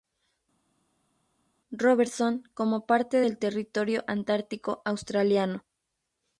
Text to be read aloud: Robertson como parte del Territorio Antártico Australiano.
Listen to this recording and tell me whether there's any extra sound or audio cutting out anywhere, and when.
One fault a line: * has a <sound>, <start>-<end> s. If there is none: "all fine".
all fine